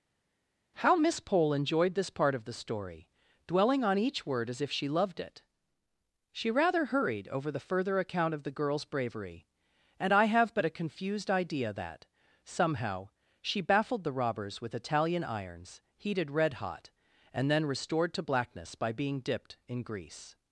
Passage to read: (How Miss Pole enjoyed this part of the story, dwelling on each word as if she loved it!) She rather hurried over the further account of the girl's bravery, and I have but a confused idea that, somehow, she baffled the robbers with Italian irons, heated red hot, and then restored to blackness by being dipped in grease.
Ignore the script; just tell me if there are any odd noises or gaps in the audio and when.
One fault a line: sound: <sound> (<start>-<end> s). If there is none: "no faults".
no faults